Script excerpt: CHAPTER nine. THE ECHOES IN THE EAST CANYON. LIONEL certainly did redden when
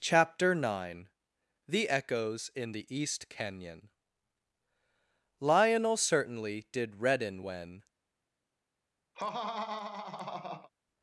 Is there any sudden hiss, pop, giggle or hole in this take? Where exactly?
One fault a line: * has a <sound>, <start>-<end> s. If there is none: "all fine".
* has a laugh, 9.1-10.7 s